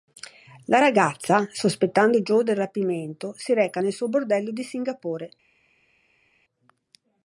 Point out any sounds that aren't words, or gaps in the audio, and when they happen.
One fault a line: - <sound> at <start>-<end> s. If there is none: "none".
none